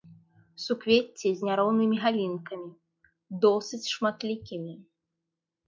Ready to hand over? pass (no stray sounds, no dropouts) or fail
pass